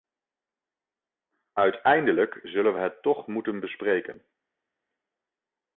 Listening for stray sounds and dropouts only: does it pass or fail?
pass